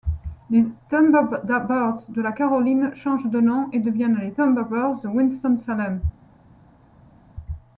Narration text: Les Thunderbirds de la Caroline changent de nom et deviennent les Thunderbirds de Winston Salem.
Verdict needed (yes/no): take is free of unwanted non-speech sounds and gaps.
yes